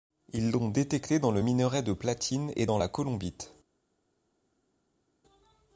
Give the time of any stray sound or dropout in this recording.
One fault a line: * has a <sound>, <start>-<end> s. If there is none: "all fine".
all fine